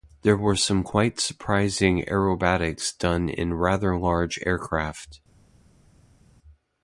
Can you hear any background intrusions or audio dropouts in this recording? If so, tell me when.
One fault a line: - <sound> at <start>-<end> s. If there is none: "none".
none